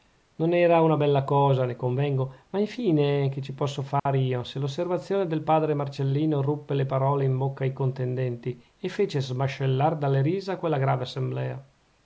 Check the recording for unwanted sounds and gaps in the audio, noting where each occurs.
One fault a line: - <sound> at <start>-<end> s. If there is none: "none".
- dropout at 4.0-4.1 s